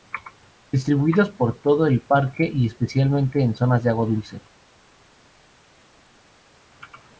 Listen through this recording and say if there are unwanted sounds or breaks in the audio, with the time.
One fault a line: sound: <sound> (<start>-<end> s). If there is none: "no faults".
no faults